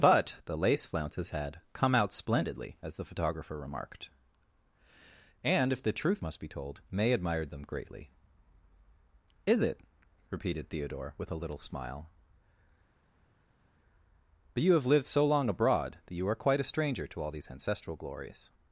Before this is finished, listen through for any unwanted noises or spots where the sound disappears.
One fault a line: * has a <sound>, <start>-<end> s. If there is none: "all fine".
all fine